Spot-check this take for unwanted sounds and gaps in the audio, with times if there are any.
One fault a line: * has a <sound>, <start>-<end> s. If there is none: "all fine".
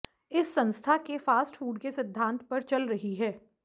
all fine